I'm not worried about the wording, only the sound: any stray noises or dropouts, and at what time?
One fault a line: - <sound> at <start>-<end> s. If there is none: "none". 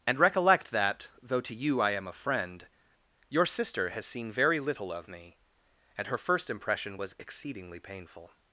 none